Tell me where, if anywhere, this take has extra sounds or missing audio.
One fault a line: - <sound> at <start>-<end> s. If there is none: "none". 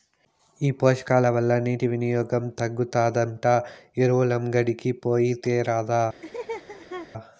- laugh at 6.2-7.1 s